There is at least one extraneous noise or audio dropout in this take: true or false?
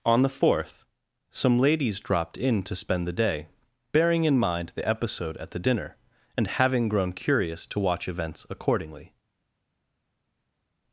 false